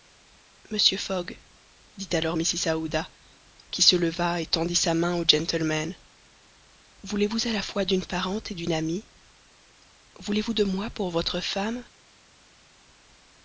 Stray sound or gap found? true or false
false